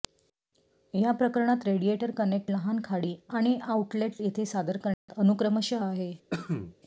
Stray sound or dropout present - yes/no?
yes